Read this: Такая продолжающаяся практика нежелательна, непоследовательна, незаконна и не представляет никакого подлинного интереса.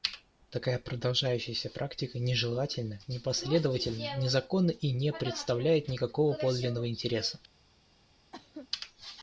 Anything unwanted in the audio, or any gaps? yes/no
yes